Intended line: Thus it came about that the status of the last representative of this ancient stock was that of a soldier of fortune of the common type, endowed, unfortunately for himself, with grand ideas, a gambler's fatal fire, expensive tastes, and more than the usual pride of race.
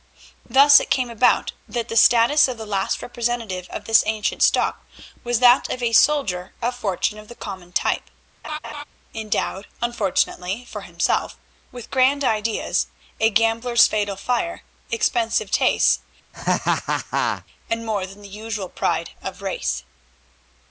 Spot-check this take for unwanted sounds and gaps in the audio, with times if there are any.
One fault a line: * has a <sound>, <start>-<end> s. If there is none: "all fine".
* has a laugh, 8.4-8.8 s
* has a laugh, 16.3-17.5 s